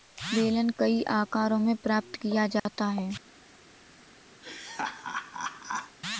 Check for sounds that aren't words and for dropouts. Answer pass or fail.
fail